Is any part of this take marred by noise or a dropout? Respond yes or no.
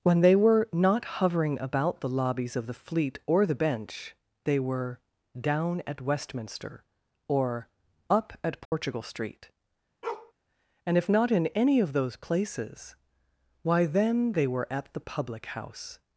yes